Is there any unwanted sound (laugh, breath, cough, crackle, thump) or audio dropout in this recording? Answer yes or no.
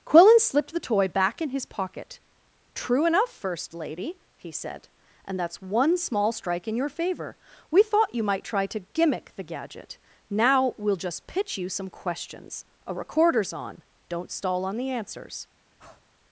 yes